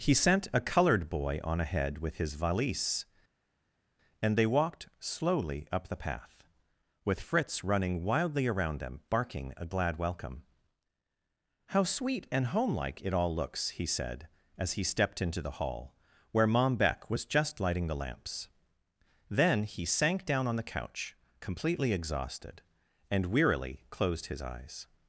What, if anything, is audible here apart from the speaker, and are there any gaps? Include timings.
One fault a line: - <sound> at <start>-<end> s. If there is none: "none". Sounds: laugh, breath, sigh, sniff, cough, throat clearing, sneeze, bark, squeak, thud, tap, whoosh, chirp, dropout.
none